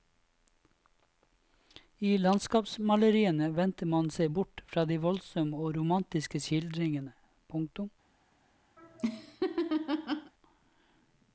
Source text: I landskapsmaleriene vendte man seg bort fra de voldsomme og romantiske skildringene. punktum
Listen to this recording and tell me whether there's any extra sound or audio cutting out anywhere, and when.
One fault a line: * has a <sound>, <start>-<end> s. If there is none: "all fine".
* has a laugh, 8.8-10.3 s